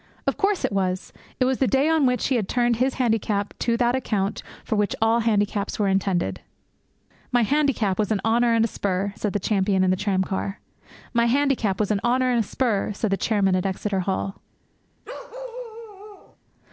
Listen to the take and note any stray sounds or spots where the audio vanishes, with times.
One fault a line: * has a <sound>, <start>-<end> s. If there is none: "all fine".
* has a bark, 15.0-16.4 s